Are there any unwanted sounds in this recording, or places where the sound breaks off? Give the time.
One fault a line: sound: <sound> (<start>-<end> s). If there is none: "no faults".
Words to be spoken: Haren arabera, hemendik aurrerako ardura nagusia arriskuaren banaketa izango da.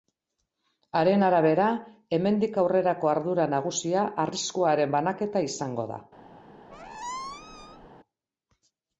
sound: squeak (6.7-7.9 s)